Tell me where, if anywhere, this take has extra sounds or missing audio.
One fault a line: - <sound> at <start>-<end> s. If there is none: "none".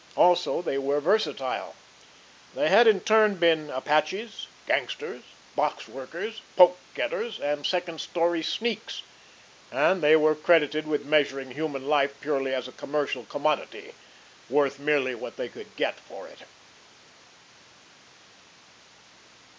none